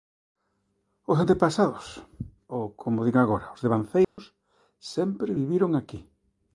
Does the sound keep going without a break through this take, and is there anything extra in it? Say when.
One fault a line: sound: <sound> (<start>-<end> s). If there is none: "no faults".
sound: dropout (4.0-4.2 s)